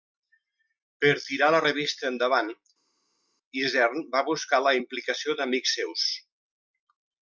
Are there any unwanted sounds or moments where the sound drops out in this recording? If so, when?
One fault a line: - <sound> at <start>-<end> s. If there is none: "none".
none